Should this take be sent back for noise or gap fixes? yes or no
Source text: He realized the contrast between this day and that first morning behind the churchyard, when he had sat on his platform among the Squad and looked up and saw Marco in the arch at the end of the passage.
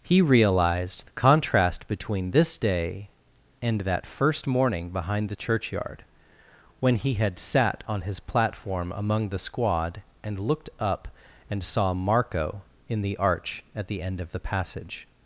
no